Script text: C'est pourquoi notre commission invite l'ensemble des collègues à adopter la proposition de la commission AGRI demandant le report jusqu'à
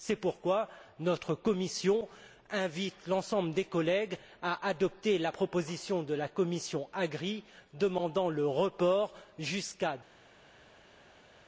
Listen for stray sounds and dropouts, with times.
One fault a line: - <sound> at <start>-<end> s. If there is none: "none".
none